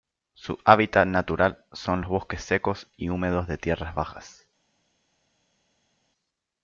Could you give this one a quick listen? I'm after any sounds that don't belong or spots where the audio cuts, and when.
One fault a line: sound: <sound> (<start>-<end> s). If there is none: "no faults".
no faults